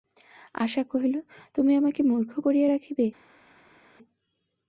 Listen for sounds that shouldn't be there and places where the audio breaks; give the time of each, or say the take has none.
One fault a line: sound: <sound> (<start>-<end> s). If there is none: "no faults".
no faults